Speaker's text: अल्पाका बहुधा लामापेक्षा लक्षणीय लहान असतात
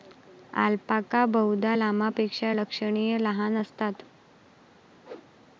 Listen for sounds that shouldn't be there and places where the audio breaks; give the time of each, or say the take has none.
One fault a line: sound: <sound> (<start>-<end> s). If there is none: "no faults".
sound: whoosh (5.0-5.3 s)